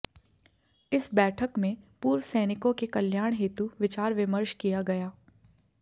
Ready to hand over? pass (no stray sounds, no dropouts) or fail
pass